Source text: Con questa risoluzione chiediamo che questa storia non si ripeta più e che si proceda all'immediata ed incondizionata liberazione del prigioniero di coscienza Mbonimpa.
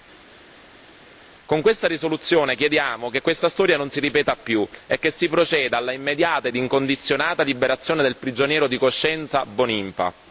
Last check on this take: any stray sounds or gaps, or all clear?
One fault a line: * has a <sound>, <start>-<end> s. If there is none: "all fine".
all fine